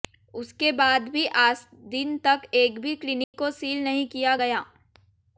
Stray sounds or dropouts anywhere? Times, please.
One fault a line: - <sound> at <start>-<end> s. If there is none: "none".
- dropout at 3.2-3.3 s